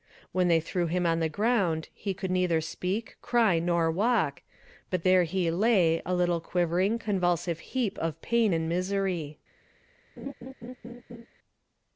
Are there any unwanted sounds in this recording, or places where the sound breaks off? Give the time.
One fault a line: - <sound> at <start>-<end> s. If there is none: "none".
- laugh at 10.2-11.3 s